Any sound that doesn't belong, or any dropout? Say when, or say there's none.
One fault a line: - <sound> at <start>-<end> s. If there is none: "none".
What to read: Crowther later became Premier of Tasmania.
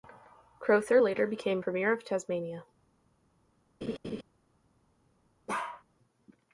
- laugh at 3.8-4.2 s
- bark at 5.5-5.8 s